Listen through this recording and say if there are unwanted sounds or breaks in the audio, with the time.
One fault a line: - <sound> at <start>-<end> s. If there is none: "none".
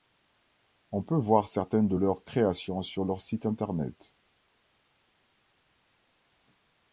none